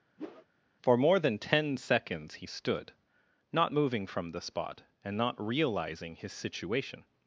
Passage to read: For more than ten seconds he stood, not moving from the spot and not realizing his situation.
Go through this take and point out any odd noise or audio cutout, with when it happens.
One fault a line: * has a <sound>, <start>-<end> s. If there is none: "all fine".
* has a whoosh, 0.2-0.5 s